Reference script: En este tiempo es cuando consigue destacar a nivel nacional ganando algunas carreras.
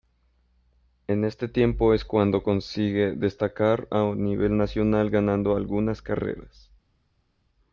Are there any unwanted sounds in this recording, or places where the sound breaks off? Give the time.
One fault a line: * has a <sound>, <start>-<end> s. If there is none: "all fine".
all fine